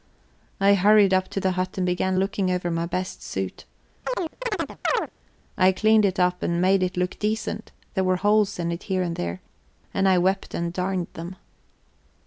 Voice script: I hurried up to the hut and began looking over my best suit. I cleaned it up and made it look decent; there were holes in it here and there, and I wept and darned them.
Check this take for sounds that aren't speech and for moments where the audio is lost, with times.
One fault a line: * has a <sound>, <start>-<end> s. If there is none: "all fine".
* has a chirp, 4.0-5.1 s